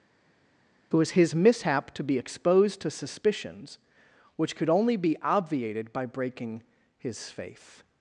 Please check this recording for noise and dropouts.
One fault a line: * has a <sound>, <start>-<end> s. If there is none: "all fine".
all fine